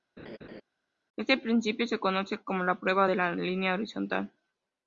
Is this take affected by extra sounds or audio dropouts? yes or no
yes